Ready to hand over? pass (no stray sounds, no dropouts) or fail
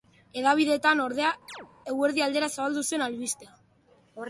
fail